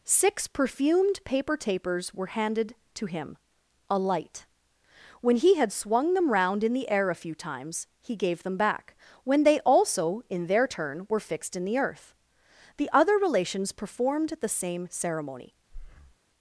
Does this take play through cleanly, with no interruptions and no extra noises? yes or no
no